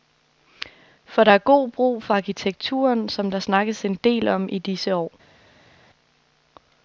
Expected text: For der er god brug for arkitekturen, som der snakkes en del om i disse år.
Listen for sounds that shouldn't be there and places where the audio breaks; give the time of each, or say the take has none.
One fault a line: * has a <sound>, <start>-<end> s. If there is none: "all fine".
all fine